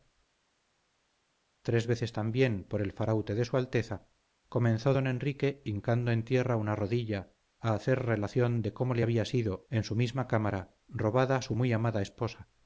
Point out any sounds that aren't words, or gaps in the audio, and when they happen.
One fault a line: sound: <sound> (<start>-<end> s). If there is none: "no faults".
no faults